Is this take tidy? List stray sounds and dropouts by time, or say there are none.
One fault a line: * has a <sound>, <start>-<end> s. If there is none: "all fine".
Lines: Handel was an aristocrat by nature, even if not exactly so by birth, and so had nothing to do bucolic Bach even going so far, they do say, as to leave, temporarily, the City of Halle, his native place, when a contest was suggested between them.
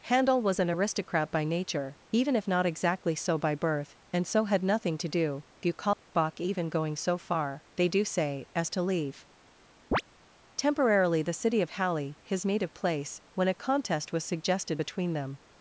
* has a dropout, 5.9-6.1 s
* has a chirp, 9.9-10.0 s